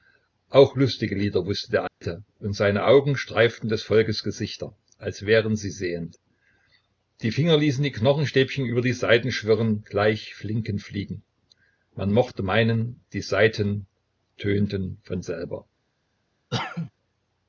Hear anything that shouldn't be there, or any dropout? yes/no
yes